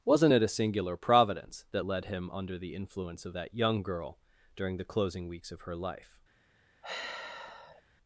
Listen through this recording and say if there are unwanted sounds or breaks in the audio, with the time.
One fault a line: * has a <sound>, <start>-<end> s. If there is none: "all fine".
* has a sigh, 6.8-7.8 s